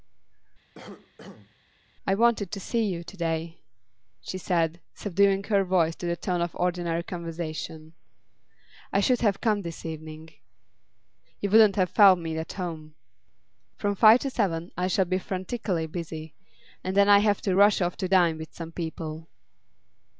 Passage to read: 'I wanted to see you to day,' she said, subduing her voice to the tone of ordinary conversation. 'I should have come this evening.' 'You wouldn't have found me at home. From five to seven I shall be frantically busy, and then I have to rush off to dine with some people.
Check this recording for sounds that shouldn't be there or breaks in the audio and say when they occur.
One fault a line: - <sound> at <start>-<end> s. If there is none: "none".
- cough at 0.7-1.6 s